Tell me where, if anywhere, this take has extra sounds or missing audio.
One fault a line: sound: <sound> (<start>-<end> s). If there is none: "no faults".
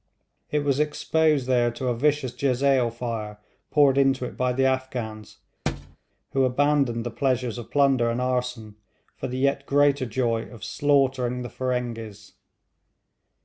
sound: thud (5.7-6.0 s)